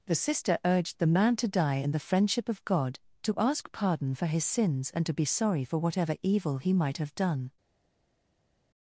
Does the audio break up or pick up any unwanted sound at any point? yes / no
no